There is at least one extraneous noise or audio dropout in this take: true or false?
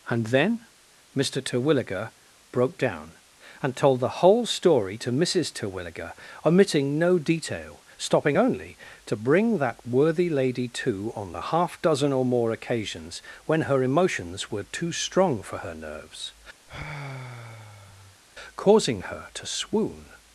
true